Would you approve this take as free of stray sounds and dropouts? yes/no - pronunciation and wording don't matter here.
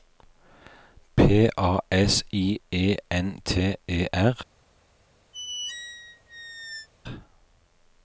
no